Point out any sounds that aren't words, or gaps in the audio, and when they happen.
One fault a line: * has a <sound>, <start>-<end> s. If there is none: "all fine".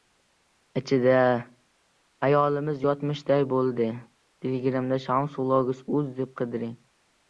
all fine